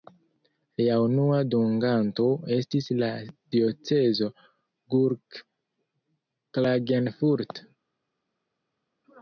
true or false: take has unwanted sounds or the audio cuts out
false